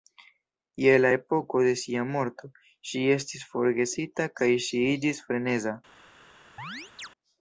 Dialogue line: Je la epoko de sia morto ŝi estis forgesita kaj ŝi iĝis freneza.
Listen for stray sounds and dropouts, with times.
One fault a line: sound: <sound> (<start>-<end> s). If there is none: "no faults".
sound: chirp (6.6-7.1 s)